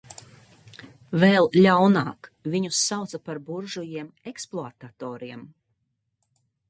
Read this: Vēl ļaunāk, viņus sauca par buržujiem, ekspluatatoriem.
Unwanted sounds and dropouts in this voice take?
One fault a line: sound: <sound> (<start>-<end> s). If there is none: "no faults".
no faults